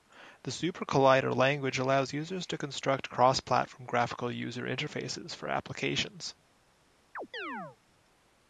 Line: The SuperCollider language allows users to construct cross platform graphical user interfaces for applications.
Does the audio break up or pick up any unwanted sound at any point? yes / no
yes